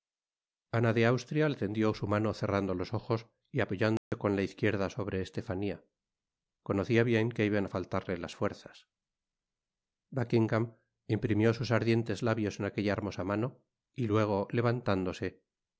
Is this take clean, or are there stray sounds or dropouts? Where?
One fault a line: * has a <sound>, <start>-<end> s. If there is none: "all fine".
* has a dropout, 4.0-4.1 s